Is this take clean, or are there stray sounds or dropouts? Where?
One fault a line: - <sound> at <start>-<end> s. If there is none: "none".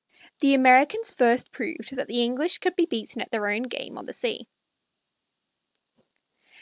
none